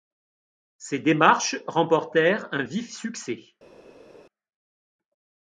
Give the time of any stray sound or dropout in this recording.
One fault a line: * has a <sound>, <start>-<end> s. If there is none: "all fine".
all fine